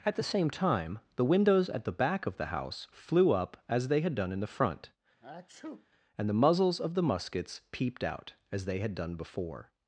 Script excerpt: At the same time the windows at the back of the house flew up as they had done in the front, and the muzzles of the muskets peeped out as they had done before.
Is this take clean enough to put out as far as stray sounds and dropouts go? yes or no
no